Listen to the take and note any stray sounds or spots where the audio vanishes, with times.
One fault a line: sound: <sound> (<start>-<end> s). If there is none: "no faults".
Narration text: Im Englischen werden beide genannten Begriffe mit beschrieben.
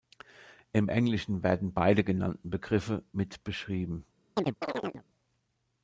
sound: chirp (4.4-5.0 s)